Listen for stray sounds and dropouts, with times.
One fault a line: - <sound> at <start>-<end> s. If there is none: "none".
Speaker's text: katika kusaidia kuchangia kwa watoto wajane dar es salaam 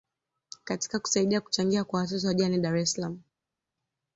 none